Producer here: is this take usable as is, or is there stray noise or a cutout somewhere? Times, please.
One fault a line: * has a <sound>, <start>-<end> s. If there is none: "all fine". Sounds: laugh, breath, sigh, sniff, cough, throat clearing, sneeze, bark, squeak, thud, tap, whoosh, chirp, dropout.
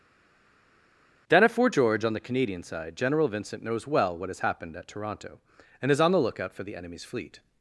all fine